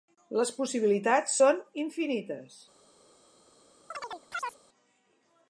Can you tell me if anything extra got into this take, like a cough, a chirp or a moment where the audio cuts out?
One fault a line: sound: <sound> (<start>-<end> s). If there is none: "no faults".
sound: chirp (3.9-4.6 s)